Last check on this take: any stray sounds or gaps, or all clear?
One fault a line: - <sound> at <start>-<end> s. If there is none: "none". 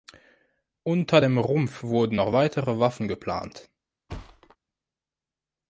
- thud at 4.1-4.6 s